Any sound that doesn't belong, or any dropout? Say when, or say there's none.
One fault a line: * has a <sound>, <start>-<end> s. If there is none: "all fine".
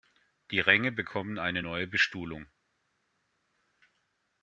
all fine